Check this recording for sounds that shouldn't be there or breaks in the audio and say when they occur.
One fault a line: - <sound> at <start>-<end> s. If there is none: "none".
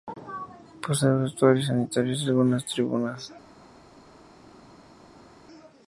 none